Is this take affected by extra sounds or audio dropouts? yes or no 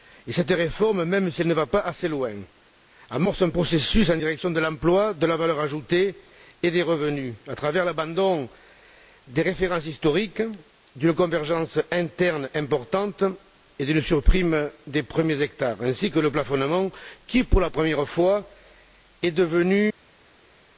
no